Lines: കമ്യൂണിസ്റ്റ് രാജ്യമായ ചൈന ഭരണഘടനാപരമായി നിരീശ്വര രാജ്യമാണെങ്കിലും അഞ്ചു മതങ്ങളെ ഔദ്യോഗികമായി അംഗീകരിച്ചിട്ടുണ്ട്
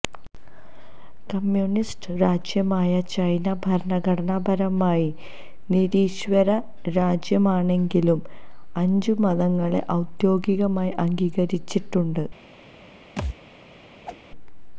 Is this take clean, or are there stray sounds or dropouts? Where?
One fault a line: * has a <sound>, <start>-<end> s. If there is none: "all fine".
* has a thud, 13.2-13.4 s
* has a whoosh, 14.0-14.2 s